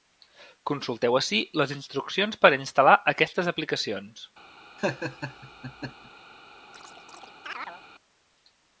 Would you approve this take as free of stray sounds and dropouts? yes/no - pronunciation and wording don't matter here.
no